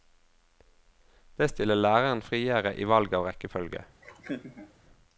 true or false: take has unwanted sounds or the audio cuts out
true